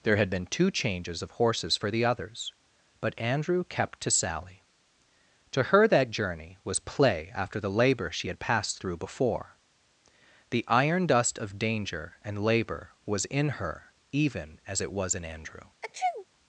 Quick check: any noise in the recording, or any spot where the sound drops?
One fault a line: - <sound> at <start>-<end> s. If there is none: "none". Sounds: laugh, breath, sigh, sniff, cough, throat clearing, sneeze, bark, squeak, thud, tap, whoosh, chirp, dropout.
- sneeze at 15.8-16.3 s